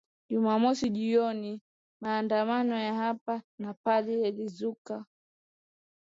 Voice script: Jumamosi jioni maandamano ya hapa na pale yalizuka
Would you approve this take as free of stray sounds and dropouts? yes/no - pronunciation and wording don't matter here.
yes